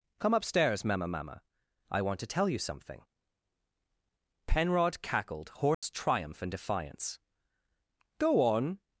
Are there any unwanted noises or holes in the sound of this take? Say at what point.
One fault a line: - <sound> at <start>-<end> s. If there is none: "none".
- dropout at 5.7-5.8 s